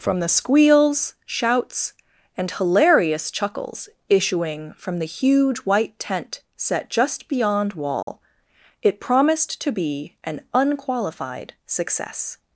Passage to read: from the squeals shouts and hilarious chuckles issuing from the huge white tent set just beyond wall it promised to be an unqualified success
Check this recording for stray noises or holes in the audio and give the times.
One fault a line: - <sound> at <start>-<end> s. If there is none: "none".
- dropout at 8.0-8.1 s